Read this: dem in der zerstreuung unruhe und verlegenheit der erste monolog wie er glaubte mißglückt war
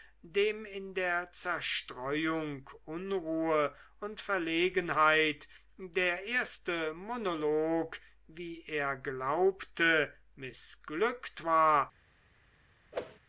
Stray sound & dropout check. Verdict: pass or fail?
fail